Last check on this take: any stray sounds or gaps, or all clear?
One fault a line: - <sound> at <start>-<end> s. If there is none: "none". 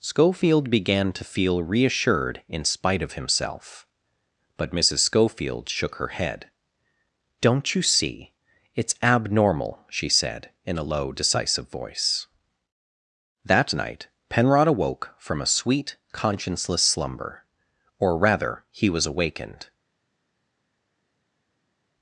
none